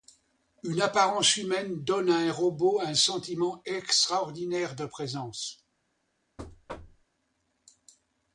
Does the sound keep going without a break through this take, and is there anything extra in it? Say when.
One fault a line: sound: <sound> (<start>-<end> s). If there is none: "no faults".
sound: thud (6.4-7.1 s)